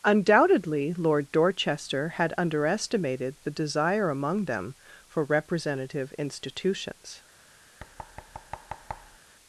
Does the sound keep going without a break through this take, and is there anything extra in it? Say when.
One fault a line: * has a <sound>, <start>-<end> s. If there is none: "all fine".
* has a thud, 7.8-9.2 s